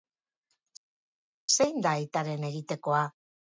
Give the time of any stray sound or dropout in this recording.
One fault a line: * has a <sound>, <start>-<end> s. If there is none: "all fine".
all fine